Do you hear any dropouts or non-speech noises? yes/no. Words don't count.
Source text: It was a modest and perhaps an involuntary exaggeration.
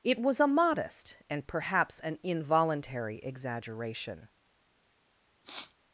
yes